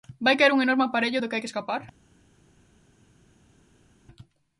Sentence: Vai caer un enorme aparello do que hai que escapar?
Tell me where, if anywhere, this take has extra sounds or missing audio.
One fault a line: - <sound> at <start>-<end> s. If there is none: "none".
none